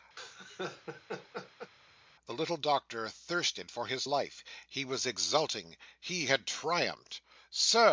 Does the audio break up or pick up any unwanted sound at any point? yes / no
yes